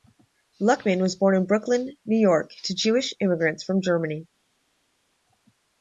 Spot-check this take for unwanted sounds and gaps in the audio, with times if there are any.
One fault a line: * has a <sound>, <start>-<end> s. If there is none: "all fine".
all fine